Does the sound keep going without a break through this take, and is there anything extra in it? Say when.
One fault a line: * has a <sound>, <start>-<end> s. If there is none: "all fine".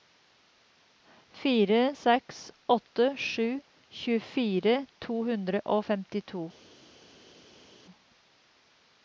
all fine